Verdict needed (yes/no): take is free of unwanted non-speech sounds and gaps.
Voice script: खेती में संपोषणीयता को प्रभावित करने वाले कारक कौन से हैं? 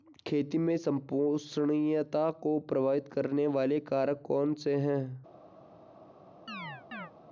no